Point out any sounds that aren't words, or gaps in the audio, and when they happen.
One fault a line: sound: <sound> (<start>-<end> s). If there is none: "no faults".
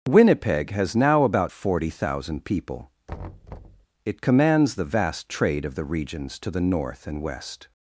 sound: thud (3.1-3.9 s)